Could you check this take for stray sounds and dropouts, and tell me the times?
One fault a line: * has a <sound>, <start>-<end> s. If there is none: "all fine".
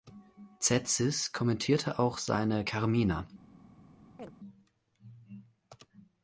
* has a chirp, 4.2-4.3 s